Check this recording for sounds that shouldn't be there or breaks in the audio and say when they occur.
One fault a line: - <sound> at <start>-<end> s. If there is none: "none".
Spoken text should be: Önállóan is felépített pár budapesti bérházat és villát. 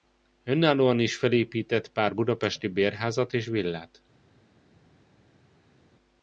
none